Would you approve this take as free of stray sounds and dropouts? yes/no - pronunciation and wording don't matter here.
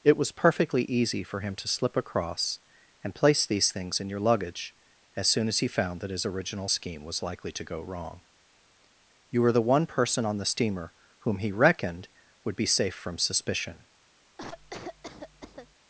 no